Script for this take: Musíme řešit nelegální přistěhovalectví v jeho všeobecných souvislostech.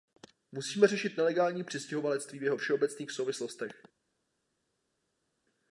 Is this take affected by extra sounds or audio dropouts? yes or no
no